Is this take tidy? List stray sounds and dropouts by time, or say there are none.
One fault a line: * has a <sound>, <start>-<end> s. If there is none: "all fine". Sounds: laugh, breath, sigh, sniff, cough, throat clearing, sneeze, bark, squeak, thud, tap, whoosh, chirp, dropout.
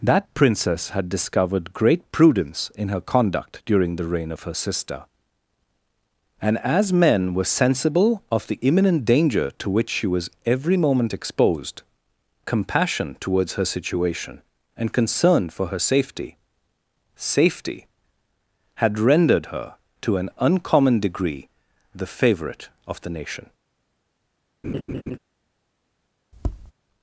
* has a laugh, 24.6-25.2 s
* has a tap, 26.3-26.7 s